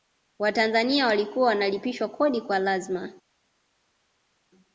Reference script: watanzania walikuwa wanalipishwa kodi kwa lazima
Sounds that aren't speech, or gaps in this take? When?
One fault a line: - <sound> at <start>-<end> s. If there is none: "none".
none